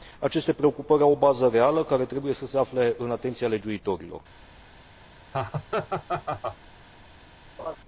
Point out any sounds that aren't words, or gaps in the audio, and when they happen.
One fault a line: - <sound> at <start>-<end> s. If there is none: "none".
- laugh at 5.3-6.6 s
- laugh at 7.6-7.8 s